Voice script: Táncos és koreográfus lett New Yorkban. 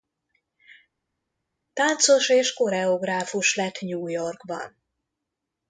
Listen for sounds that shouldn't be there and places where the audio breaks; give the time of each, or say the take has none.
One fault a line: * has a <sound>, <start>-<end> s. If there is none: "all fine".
all fine